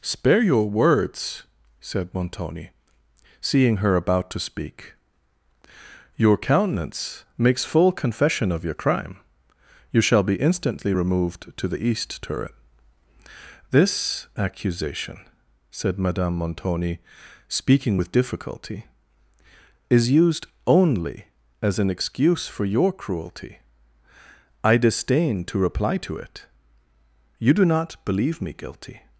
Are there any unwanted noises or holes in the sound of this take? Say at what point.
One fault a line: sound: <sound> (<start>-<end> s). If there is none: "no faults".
no faults